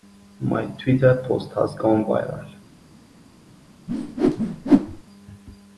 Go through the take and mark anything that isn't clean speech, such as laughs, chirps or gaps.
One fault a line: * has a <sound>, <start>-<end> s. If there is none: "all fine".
* has a whoosh, 3.9-5.0 s